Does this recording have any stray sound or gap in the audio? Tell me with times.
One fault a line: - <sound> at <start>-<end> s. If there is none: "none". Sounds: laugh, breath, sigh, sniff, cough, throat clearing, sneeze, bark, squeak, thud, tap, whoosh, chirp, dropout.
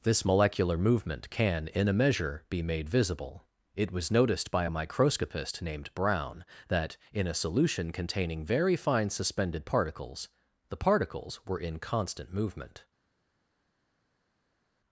none